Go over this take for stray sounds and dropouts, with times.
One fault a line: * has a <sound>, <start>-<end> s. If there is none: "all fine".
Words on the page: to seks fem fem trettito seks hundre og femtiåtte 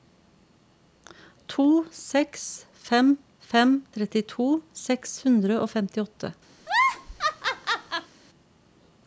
* has a laugh, 6.6-8.1 s